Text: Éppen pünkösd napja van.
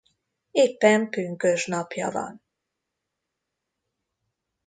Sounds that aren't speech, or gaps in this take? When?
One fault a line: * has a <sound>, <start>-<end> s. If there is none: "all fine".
all fine